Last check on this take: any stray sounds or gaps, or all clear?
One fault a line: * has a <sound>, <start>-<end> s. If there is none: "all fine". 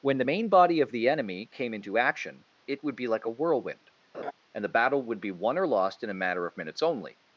* has a laugh, 4.1-4.3 s